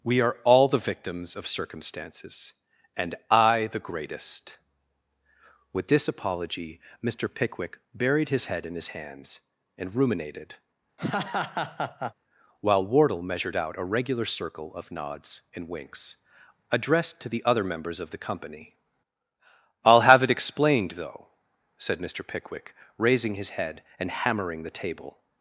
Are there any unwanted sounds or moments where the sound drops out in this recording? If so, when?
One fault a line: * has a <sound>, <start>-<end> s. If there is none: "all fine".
* has a laugh, 11.0-12.1 s